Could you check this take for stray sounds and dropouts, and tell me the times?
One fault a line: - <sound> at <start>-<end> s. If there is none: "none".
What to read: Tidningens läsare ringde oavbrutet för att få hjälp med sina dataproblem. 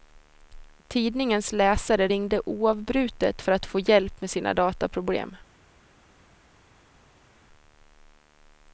none